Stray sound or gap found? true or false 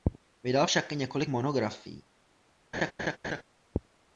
true